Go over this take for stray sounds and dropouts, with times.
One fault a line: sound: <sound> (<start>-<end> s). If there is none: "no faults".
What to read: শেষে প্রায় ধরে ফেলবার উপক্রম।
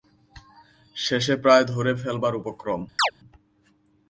sound: chirp (3.0-3.1 s)